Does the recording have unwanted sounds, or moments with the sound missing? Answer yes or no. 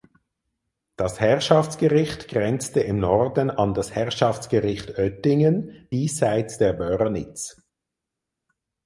no